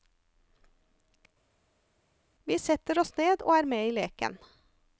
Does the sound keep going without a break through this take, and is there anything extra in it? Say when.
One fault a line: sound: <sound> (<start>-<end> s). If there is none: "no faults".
no faults